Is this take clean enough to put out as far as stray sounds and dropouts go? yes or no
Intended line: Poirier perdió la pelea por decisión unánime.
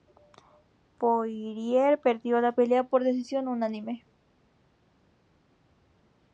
yes